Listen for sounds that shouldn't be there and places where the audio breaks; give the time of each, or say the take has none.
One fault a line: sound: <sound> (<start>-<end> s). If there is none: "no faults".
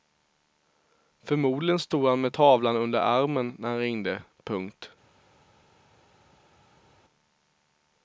no faults